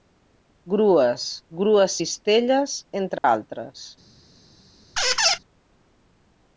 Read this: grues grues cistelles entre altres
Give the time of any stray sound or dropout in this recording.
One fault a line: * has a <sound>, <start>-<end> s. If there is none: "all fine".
* has a dropout, 3.2-3.2 s
* has a squeak, 5.0-5.4 s